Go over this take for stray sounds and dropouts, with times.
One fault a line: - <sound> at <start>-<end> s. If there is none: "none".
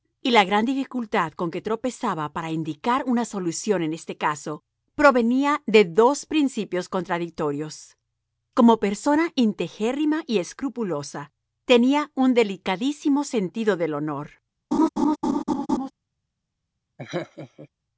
- laugh at 14.7-15.9 s
- laugh at 17.0-17.7 s